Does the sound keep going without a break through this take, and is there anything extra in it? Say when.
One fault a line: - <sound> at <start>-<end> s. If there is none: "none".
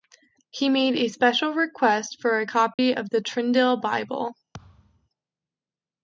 - dropout at 2.7-2.8 s
- thud at 4.5-5.1 s